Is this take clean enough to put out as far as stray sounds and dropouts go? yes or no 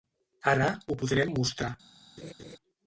no